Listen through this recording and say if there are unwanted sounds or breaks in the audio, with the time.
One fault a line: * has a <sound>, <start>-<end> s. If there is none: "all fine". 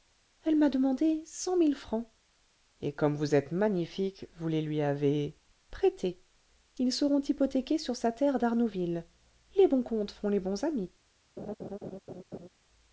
* has a laugh, 11.4-12.5 s